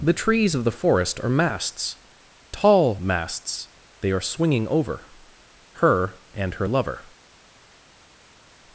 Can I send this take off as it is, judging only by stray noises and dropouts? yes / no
yes